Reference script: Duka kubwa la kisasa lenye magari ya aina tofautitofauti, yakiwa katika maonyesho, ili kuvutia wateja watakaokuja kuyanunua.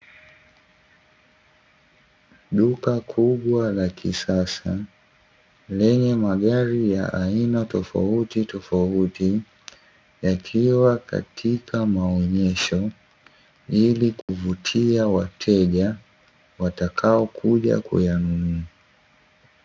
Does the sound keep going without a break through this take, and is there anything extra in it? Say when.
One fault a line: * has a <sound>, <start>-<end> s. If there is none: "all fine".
* has a dropout, 14.2-14.3 s